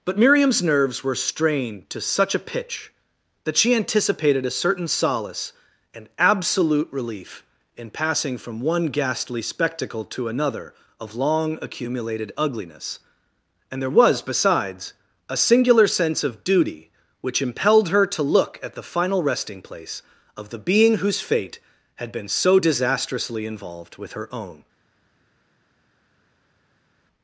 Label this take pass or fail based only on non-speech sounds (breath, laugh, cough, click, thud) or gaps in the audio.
pass